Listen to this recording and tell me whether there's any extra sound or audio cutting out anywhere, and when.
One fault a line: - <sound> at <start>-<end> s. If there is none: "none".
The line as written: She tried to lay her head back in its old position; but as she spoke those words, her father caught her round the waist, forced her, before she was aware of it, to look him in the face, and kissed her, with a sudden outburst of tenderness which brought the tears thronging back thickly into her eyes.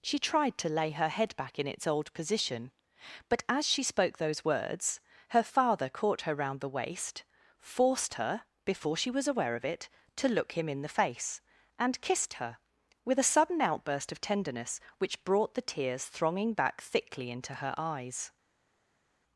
none